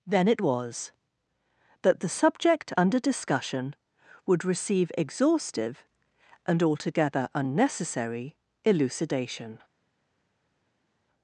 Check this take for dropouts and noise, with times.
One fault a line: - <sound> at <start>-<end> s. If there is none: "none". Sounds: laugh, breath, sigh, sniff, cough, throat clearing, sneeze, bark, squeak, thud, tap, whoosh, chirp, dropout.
none